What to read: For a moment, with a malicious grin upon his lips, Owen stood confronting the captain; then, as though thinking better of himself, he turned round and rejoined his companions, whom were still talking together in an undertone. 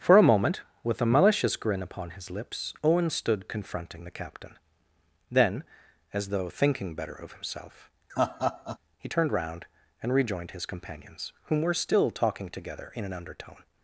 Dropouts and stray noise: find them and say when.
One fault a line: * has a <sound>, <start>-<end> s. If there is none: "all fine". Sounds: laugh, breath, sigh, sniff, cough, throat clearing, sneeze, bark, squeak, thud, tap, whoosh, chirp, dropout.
* has a laugh, 8.1-8.8 s